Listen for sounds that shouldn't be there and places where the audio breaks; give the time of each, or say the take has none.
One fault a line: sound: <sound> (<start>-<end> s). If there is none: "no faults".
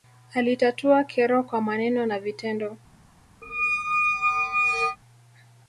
sound: squeak (3.4-5.0 s)